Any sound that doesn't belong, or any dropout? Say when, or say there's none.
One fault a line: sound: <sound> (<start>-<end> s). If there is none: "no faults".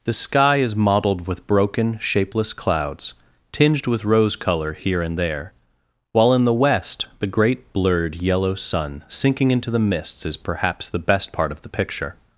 no faults